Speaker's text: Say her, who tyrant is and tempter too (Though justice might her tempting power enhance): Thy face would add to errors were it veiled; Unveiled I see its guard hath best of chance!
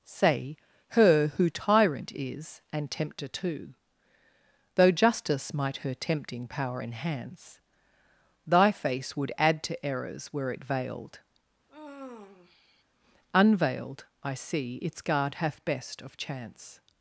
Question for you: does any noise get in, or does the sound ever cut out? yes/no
yes